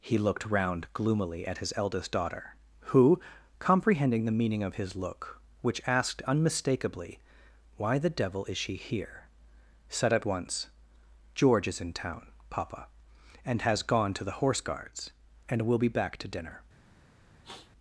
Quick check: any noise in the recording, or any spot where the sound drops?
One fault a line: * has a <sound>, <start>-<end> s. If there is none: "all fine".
* has a sniff, 17.4-17.7 s